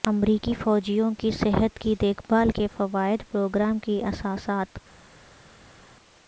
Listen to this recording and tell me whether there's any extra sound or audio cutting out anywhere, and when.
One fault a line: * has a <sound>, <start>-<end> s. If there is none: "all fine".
all fine